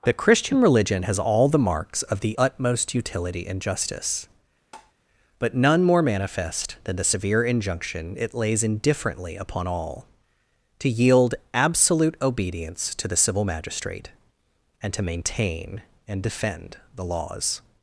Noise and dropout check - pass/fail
fail